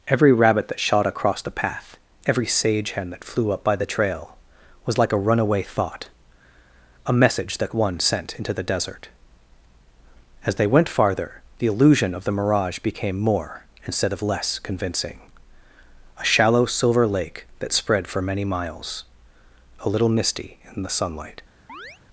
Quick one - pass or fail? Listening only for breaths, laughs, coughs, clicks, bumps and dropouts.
fail